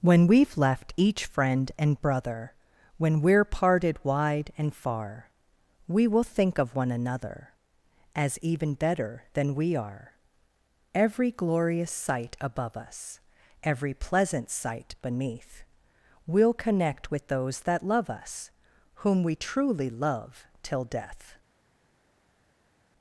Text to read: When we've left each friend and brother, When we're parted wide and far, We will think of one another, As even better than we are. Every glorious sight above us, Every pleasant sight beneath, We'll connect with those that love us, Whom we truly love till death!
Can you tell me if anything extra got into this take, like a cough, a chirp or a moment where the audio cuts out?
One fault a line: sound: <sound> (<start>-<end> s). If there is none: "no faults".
no faults